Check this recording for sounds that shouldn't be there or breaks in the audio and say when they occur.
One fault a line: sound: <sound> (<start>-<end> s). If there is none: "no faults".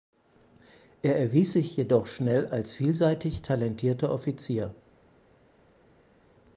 no faults